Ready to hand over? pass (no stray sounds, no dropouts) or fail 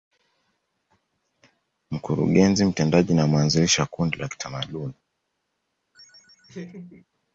fail